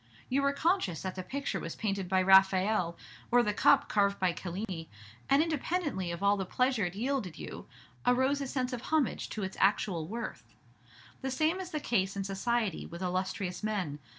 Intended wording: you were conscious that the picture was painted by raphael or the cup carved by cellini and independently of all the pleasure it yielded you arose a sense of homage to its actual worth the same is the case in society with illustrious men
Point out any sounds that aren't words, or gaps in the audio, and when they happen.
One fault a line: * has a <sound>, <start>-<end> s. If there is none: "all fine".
* has a dropout, 4.6-4.7 s